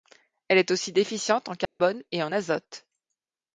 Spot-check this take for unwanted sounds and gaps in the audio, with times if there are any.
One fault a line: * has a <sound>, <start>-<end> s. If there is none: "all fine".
* has a dropout, 1.7-1.8 s